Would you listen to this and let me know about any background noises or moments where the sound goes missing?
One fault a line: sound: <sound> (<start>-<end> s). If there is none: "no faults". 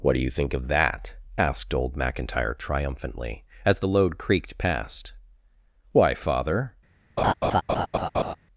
sound: laugh (7.2-8.4 s)